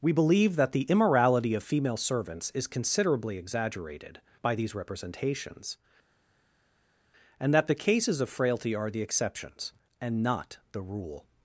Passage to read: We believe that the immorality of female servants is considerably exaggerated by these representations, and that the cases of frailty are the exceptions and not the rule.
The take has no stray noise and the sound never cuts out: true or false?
true